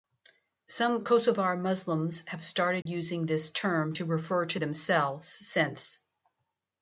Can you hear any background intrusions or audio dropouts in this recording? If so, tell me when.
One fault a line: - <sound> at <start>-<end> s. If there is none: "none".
- dropout at 2.8-2.9 s